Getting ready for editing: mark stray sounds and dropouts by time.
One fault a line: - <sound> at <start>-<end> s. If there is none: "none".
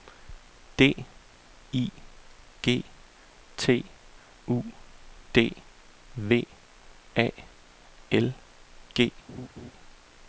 - laugh at 9.3-9.7 s